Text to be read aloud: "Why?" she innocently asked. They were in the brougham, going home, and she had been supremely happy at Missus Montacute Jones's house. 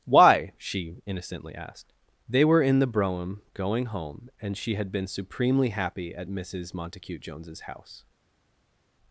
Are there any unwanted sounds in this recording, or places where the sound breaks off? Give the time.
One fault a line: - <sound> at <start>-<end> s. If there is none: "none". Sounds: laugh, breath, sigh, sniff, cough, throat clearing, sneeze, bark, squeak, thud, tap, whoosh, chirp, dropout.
none